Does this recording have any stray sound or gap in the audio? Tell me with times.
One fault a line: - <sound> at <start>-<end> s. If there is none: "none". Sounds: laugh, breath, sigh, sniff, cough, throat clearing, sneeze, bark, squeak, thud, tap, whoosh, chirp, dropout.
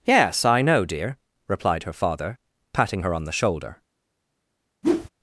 - whoosh at 4.8-5.1 s